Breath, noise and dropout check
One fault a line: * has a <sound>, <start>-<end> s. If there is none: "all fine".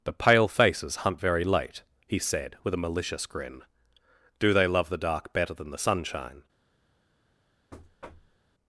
* has a thud, 7.7-8.4 s